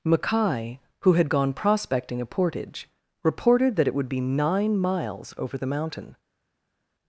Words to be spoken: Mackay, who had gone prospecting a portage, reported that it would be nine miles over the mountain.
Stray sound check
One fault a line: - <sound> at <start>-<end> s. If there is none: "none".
none